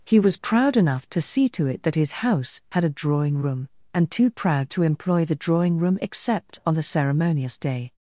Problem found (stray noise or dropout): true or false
false